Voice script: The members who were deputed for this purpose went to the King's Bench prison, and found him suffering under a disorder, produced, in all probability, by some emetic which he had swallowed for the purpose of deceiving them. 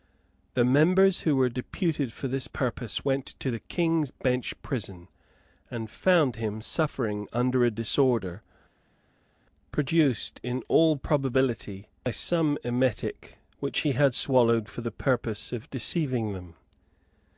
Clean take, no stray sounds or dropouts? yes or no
yes